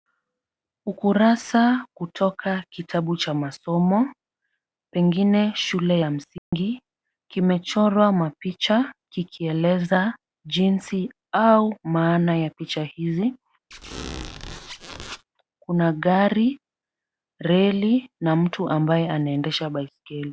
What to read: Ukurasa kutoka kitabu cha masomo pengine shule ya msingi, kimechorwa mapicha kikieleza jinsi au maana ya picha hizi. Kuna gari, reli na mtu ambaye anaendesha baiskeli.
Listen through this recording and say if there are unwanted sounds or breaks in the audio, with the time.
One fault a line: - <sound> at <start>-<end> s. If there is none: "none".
- dropout at 6.4-6.5 s
- squeak at 13.7-15.2 s